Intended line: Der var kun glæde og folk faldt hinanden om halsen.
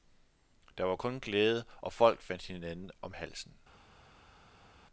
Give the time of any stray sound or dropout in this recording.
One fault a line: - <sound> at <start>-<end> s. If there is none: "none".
none